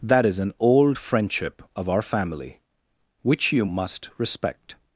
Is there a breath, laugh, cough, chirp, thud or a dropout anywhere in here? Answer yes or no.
no